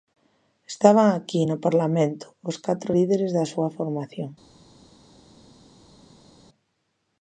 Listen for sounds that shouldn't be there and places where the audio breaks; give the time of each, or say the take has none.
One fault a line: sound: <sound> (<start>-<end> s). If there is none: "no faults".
no faults